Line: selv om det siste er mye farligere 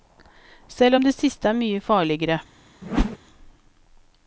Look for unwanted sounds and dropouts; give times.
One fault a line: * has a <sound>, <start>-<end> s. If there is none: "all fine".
* has a whoosh, 2.8-3.2 s